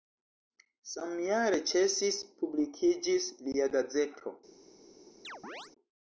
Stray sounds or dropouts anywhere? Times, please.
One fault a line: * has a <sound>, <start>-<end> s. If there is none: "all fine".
* has a chirp, 5.2-5.7 s